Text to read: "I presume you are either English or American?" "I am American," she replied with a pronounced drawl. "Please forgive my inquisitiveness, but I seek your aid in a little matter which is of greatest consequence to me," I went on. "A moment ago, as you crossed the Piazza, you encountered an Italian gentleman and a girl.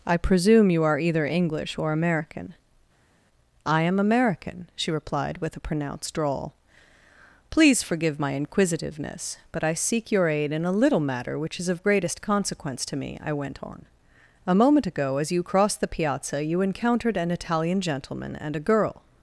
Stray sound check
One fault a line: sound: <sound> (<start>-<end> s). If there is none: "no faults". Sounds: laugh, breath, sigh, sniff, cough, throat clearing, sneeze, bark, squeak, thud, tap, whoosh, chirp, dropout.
no faults